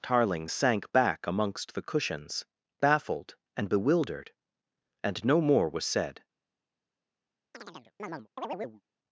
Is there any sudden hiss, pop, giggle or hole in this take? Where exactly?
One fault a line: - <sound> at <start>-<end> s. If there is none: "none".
- chirp at 7.5-8.8 s